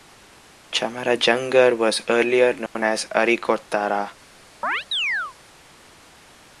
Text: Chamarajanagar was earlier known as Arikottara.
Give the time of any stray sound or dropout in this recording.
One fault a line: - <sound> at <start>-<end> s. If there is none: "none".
- dropout at 2.7-2.8 s
- chirp at 4.6-5.4 s